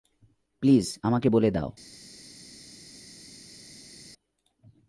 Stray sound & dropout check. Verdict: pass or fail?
pass